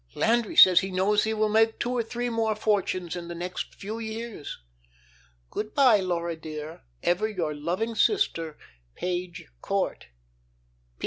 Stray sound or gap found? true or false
false